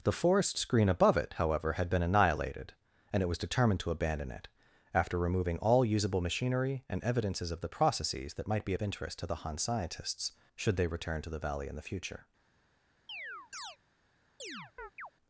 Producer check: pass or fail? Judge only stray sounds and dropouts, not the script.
fail